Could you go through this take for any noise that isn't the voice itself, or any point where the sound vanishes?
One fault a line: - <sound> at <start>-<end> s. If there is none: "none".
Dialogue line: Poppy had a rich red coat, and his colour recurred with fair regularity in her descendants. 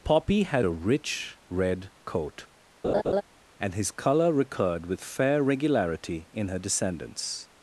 - laugh at 2.8-3.2 s